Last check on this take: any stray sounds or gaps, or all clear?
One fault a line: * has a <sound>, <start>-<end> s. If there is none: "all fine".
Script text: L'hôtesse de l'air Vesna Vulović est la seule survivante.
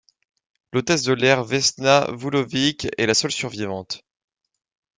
all fine